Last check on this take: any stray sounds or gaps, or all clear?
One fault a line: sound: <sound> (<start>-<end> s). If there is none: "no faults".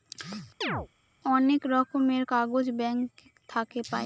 sound: chirp (0.6-0.9 s)